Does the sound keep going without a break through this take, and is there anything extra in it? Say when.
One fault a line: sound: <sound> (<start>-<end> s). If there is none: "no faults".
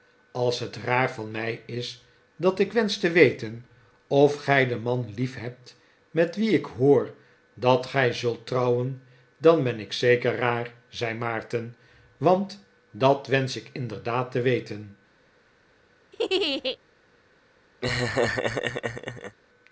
sound: laugh (16.1-16.8 s)
sound: laugh (17.8-19.4 s)